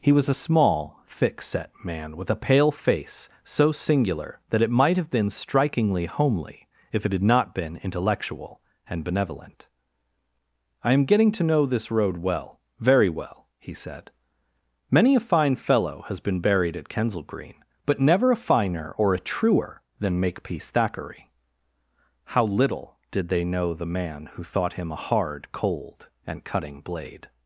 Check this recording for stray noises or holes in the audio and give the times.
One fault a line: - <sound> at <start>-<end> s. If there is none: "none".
none